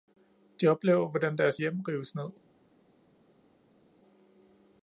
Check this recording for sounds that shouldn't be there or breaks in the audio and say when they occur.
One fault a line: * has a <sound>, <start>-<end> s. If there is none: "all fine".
all fine